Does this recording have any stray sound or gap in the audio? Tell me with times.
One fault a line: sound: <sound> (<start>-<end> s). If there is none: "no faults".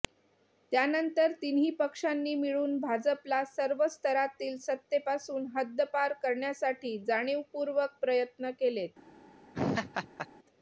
sound: laugh (9.5-10.3 s)